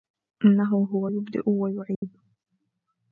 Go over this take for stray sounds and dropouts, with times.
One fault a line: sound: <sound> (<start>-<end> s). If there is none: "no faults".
sound: dropout (1.9-2.0 s)